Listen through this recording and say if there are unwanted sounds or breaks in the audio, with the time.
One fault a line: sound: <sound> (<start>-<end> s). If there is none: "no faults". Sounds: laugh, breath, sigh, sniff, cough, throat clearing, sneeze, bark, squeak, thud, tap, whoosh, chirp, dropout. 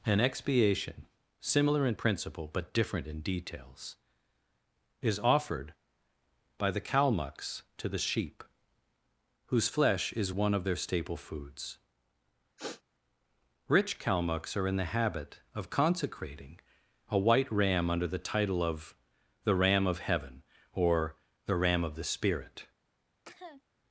sound: sniff (12.6-12.8 s)
sound: cough (23.3-23.6 s)